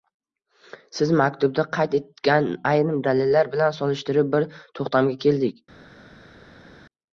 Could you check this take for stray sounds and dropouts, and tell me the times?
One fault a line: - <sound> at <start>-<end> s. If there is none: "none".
none